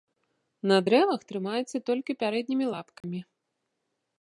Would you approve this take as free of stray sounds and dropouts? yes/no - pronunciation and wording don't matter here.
no